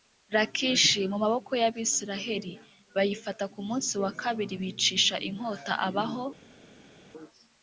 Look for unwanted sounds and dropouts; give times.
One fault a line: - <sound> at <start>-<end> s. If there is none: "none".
none